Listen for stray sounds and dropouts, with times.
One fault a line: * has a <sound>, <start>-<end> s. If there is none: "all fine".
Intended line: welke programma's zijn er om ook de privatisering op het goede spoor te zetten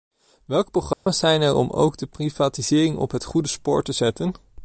* has a dropout, 0.9-1.1 s